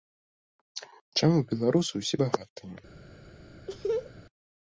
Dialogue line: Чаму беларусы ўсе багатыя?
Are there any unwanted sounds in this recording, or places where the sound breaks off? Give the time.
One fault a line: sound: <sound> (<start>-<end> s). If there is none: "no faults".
sound: laugh (3.7-4.1 s)